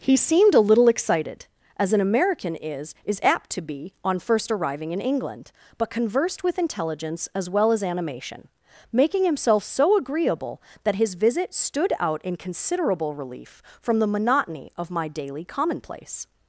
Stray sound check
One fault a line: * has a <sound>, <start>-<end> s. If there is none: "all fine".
all fine